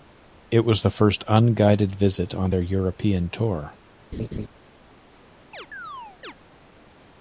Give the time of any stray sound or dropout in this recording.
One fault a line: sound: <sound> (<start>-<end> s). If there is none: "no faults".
sound: laugh (4.1-4.5 s)
sound: chirp (5.5-6.3 s)